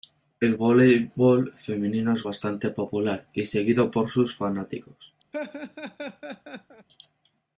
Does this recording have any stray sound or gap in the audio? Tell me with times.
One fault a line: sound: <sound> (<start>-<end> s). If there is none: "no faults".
sound: laugh (5.3-6.9 s)